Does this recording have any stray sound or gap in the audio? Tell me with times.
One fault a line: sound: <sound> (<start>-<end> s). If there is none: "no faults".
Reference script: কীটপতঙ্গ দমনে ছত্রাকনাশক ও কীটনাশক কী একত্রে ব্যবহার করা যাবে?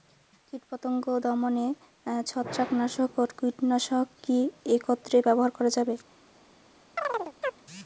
sound: chirp (7.0-7.6 s)